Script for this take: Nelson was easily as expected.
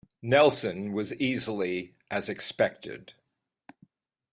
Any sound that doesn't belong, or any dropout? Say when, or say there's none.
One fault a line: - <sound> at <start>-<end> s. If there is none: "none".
none